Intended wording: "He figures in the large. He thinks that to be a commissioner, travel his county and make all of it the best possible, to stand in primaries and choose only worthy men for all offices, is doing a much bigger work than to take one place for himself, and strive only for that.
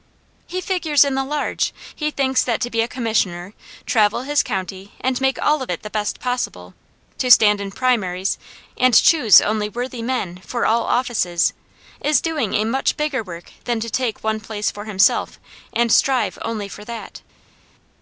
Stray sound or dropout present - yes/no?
no